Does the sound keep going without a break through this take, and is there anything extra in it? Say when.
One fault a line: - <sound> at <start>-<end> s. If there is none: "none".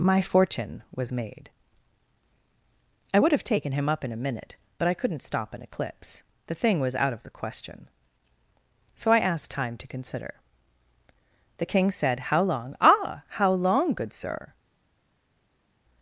none